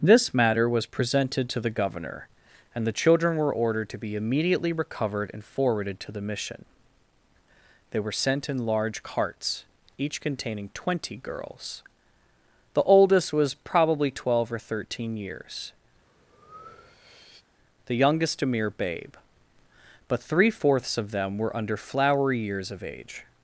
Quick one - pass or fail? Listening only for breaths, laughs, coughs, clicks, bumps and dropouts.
fail